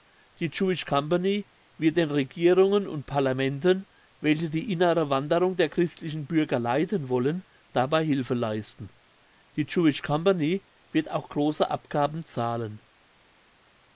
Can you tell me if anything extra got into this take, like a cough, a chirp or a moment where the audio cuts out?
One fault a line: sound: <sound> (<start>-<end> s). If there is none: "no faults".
no faults